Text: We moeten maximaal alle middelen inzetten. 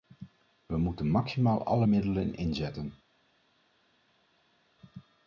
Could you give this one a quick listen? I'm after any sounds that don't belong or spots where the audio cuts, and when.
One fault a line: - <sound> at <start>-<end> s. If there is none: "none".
none